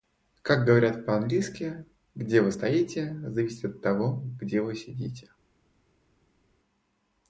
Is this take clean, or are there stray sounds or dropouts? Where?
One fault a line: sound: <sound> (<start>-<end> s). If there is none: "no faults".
no faults